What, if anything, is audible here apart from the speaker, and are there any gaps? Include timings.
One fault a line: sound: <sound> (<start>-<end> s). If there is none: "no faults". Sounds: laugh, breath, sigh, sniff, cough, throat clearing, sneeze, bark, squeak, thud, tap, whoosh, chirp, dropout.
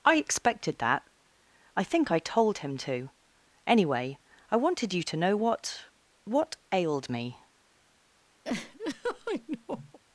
sound: laugh (8.4-10.0 s)